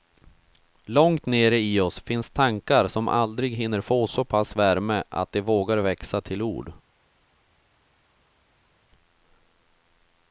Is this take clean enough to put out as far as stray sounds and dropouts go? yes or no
yes